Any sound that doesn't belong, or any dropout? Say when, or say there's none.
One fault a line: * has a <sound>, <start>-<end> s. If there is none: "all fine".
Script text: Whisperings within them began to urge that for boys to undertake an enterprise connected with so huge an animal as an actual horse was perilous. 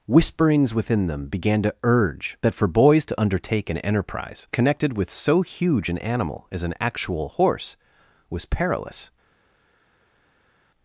all fine